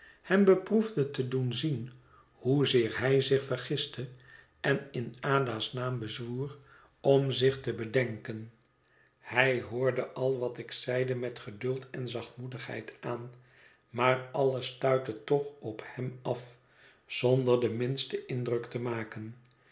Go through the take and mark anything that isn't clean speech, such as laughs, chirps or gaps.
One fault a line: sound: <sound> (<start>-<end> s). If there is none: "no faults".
no faults